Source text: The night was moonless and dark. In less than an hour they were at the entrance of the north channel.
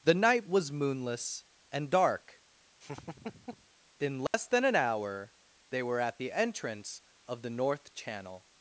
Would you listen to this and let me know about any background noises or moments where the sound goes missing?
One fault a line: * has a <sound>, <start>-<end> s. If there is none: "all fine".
* has a laugh, 2.8-3.7 s
* has a dropout, 4.3-4.3 s